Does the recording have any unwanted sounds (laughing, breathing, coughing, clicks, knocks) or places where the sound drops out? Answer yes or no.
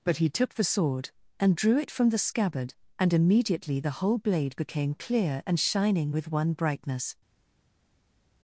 no